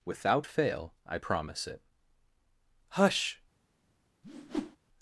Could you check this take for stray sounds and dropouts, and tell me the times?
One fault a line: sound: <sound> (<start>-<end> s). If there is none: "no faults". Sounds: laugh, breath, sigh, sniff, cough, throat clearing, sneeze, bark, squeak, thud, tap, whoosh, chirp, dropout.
sound: whoosh (4.2-4.8 s)